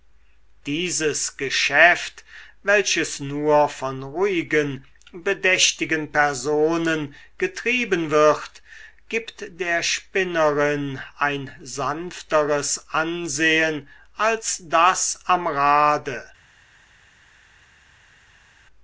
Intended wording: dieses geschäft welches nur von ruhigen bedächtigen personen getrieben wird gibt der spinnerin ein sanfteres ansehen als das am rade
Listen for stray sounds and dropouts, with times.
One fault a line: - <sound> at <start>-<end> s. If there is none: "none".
none